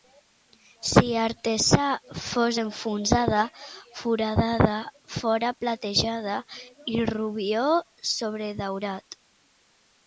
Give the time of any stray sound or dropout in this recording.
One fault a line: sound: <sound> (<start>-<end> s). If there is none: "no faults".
no faults